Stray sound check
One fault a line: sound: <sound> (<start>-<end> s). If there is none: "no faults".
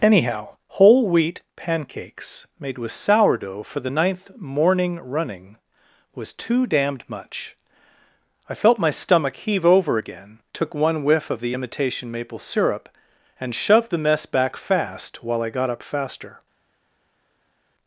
no faults